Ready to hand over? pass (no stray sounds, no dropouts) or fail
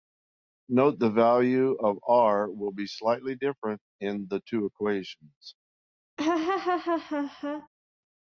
fail